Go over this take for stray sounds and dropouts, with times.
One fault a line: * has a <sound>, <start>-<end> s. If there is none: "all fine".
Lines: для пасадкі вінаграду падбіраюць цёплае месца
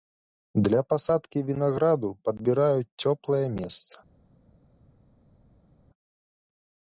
all fine